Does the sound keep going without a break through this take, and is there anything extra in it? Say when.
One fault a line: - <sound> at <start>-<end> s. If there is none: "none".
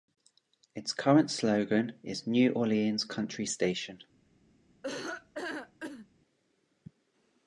- laugh at 4.8-6.1 s